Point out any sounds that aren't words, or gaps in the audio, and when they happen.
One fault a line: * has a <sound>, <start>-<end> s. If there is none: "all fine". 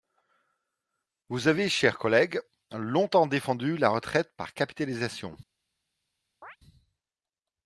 * has a chirp, 6.4-6.6 s